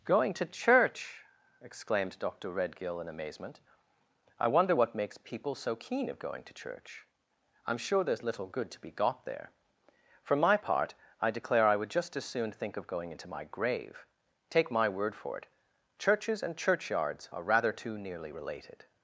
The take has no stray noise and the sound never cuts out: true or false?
true